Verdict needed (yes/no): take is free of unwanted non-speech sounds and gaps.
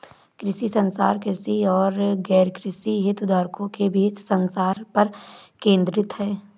no